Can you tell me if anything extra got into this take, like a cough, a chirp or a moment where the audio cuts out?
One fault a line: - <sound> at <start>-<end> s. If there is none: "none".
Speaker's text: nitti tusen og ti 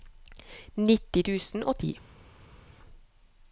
none